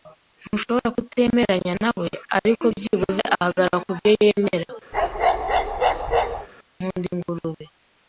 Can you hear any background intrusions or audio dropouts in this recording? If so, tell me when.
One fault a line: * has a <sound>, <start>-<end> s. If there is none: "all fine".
* has a bark, 4.9-6.5 s